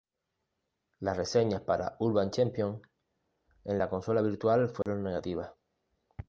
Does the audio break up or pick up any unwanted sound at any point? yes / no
yes